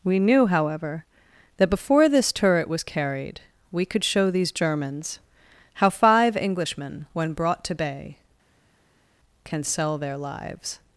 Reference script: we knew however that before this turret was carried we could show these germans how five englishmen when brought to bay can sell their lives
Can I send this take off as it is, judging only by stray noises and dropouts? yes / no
yes